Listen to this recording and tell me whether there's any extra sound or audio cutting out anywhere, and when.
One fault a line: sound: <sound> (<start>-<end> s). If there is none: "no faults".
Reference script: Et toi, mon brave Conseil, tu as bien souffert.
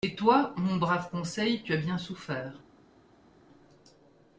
no faults